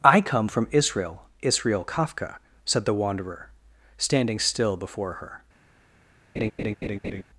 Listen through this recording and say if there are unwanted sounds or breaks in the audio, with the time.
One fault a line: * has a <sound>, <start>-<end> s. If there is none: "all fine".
* has a laugh, 6.4-7.2 s